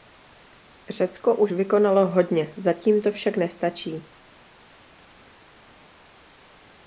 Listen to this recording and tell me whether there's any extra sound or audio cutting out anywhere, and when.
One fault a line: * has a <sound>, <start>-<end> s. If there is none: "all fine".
all fine